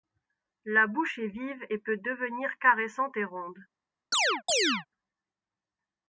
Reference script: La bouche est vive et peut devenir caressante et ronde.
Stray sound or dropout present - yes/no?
yes